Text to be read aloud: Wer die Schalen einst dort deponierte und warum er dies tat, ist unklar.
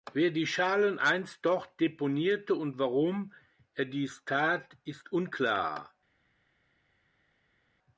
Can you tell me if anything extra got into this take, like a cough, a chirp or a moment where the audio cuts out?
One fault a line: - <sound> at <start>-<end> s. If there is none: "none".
none